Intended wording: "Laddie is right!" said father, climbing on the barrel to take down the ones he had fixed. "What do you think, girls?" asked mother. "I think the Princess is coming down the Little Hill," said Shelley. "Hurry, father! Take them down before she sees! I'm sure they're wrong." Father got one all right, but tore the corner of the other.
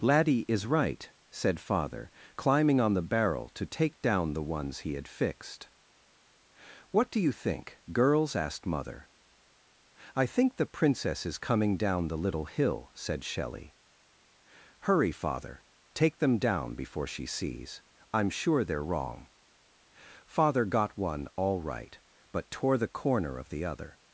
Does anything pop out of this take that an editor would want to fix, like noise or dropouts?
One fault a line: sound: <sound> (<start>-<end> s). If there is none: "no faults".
no faults